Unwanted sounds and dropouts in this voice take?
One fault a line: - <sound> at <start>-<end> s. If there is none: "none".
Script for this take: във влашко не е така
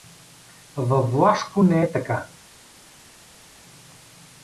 none